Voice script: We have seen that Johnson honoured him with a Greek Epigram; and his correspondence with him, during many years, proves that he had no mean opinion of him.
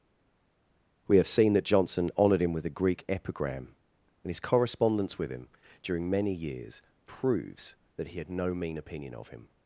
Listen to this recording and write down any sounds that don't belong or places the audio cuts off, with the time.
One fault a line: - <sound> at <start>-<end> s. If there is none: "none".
none